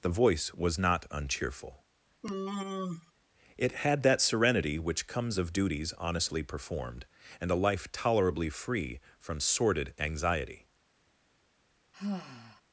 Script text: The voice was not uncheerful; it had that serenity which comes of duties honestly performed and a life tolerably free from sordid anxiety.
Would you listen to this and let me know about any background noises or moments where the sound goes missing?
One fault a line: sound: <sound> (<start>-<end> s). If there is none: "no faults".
sound: sigh (2.2-3.1 s)
sound: sigh (11.9-12.6 s)